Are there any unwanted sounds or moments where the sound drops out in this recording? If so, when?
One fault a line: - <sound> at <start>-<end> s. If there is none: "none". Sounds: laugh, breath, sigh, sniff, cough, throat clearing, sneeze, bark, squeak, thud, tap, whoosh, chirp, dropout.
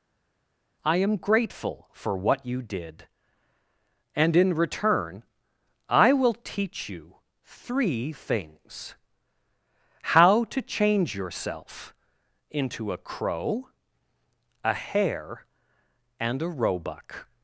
none